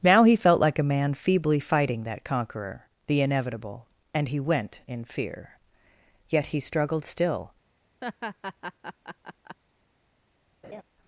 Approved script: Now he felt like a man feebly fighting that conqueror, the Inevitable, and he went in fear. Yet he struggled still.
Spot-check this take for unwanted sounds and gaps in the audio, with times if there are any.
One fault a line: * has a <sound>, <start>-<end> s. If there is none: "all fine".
* has a laugh, 8.0-9.6 s
* has a laugh, 10.6-10.8 s